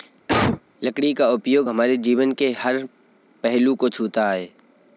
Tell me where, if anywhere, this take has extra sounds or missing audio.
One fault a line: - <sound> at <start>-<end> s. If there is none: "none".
- cough at 0.3-0.6 s